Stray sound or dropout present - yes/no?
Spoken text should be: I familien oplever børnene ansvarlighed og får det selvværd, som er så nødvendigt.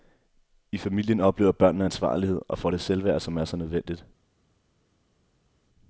no